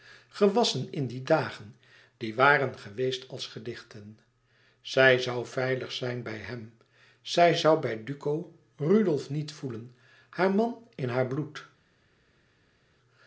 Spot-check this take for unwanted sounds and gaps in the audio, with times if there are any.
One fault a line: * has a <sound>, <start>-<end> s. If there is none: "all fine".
all fine